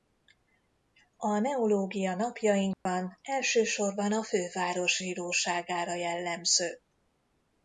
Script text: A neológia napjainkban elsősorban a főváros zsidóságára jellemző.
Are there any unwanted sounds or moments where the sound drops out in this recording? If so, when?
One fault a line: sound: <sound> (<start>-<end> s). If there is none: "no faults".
sound: dropout (2.7-2.9 s)